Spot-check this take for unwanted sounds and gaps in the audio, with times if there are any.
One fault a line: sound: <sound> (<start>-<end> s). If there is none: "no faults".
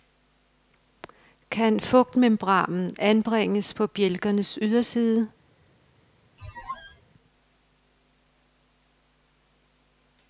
sound: squeak (6.4-7.0 s)